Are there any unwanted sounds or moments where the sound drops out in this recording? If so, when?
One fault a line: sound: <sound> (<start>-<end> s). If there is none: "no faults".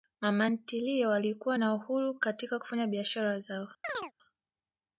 sound: chirp (3.8-4.1 s)